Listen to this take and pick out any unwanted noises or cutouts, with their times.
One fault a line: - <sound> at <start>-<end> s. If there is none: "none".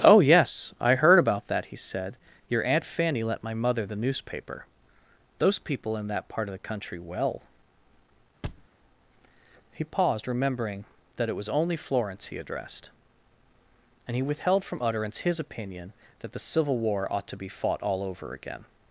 - thud at 8.4-8.7 s